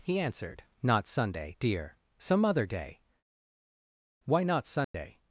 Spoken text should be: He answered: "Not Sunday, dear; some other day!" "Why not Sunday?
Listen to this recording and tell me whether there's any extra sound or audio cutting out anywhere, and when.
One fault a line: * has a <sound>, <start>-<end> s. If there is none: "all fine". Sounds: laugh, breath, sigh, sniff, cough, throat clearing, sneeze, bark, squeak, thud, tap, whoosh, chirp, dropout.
* has a dropout, 4.8-4.9 s